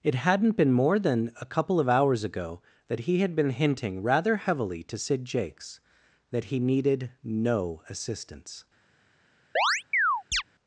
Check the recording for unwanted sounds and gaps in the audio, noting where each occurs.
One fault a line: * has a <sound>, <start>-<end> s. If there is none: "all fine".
* has a chirp, 9.6-10.4 s